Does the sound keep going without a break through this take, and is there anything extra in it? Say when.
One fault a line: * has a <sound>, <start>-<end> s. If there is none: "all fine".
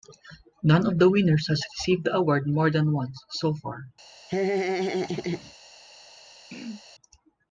* has a laugh, 4.3-5.5 s
* has a throat clearing, 6.5-6.8 s